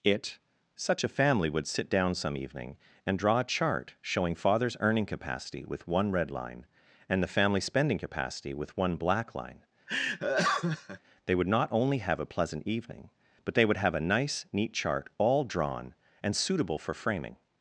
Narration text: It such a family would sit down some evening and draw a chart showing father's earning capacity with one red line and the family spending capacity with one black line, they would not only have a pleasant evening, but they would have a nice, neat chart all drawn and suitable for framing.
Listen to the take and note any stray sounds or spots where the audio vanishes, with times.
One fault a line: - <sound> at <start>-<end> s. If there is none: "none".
- laugh at 9.9-11.0 s